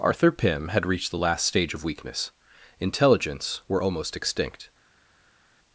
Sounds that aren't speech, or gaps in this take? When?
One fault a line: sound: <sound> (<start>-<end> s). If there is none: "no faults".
no faults